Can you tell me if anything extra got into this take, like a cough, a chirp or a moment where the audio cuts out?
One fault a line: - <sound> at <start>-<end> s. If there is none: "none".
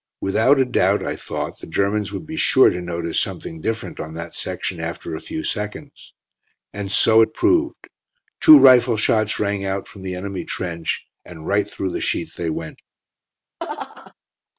- laugh at 13.6-14.1 s